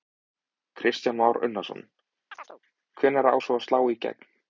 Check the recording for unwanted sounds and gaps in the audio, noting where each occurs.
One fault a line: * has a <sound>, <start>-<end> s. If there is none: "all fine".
* has a chirp, 2.3-2.6 s